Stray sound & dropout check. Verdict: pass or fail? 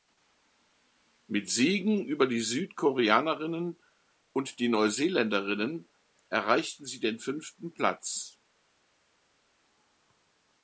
pass